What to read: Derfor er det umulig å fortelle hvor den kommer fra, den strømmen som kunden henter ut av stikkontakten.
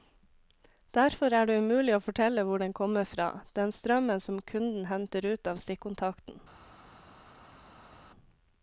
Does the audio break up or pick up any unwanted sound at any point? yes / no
no